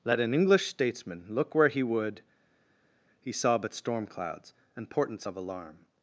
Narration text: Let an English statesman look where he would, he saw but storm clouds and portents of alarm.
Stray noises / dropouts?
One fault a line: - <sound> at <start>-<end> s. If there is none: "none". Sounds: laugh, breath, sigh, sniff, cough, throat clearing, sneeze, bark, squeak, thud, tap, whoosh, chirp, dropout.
none